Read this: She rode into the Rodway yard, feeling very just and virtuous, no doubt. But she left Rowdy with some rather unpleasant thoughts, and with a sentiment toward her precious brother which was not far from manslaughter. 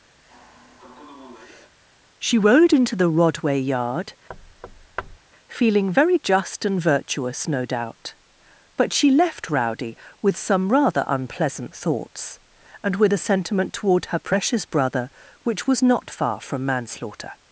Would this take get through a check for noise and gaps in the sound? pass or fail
fail